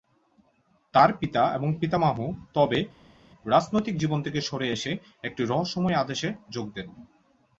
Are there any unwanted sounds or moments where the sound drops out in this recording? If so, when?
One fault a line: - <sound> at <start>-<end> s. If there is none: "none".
none